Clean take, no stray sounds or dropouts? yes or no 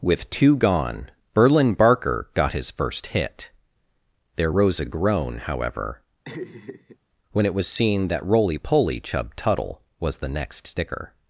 no